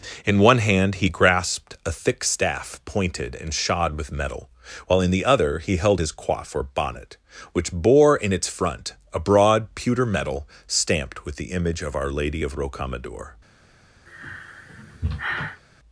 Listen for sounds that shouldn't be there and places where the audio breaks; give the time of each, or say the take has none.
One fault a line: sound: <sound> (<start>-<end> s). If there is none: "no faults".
sound: sigh (14.1-15.6 s)